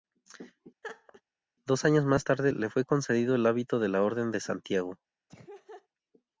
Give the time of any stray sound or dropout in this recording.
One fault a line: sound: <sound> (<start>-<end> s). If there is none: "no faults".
sound: laugh (0.8-1.2 s)
sound: laugh (5.3-5.9 s)